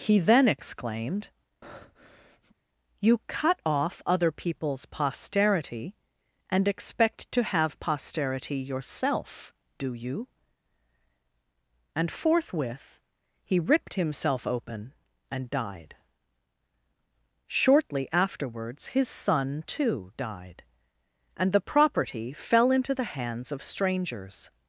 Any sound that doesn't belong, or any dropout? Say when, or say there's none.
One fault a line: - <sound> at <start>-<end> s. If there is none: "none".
- breath at 1.6-2.6 s